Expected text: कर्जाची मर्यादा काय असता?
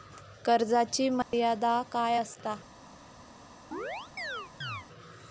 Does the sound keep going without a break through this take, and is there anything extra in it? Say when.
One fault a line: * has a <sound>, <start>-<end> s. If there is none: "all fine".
* has a dropout, 1.2-1.3 s
* has a chirp, 3.7-4.9 s